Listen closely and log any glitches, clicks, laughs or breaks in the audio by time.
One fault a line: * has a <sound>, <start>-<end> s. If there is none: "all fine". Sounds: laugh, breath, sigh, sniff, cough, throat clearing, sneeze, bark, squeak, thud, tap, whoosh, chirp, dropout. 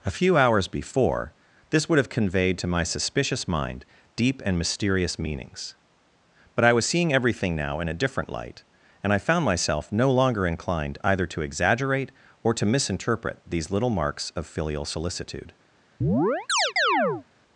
* has a chirp, 16.0-17.3 s